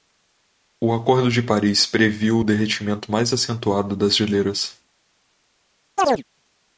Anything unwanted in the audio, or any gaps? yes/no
yes